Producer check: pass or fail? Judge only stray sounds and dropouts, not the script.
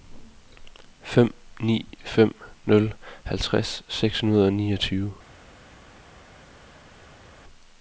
pass